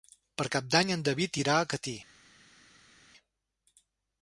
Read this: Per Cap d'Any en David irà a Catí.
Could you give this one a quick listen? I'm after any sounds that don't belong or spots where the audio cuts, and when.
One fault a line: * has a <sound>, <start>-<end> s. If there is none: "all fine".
all fine